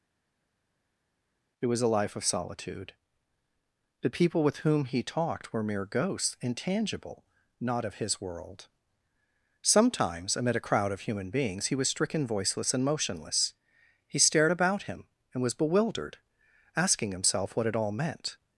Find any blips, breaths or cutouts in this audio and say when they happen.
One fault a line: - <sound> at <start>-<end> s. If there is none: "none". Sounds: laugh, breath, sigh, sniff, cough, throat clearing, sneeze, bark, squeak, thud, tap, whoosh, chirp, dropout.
none